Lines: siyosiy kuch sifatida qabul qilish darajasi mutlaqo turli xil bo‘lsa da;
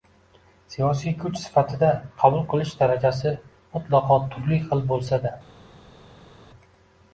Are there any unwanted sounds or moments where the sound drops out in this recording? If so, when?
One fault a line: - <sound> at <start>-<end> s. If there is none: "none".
none